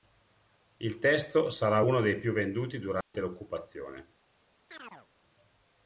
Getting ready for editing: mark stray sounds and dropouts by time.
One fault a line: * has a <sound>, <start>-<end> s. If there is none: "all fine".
* has a dropout, 3.0-3.1 s
* has a chirp, 4.7-5.1 s